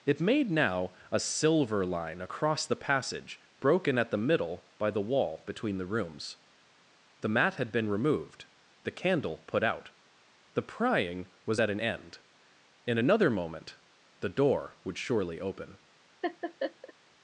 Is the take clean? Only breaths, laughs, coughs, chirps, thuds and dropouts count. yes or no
no